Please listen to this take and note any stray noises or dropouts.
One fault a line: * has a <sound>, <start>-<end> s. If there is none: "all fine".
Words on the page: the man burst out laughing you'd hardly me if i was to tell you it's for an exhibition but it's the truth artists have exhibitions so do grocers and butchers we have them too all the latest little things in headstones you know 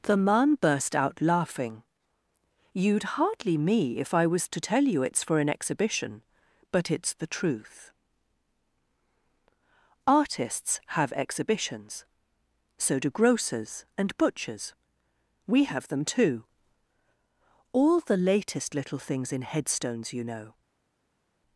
all fine